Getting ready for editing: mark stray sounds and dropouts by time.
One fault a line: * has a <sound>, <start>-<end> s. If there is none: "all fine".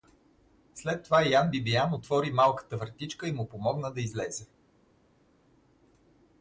all fine